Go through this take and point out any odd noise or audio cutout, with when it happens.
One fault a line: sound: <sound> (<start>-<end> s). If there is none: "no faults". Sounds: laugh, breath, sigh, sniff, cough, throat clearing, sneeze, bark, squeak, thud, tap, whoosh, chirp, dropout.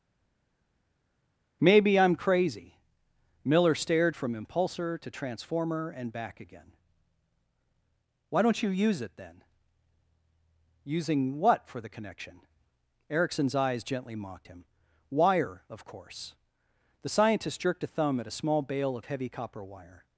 no faults